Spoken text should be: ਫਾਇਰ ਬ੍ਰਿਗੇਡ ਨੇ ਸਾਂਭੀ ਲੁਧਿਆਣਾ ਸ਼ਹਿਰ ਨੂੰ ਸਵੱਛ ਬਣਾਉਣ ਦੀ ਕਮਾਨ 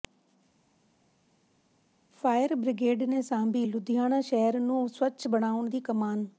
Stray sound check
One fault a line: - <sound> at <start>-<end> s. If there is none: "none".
none